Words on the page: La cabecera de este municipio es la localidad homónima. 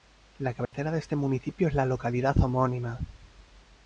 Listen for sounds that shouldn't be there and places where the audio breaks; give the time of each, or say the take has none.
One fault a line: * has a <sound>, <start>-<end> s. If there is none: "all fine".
* has a dropout, 0.7-0.7 s